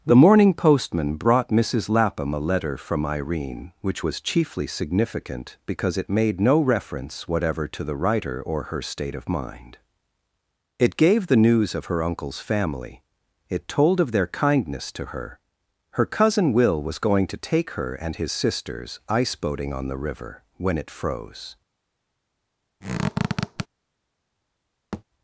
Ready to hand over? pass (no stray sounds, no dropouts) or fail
fail